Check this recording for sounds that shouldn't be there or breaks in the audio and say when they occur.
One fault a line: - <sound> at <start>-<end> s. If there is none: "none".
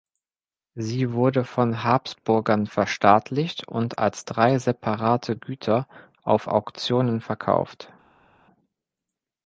none